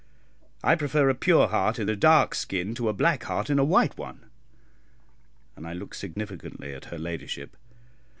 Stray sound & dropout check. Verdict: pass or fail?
fail